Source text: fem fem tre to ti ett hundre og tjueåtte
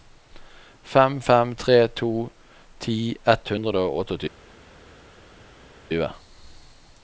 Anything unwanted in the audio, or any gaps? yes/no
no